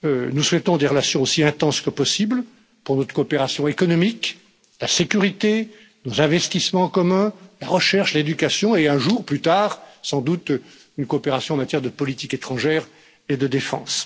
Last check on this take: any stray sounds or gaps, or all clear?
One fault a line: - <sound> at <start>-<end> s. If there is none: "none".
none